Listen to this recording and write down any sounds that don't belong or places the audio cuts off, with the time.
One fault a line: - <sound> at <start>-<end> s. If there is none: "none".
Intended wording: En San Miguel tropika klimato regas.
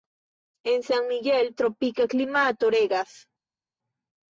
none